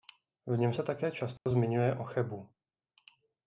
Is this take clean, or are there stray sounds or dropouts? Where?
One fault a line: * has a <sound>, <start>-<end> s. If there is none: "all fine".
* has a dropout, 1.4-1.5 s